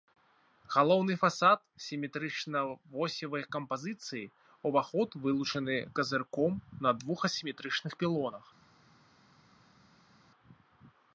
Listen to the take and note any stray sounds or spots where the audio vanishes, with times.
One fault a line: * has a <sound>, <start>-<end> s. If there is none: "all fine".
all fine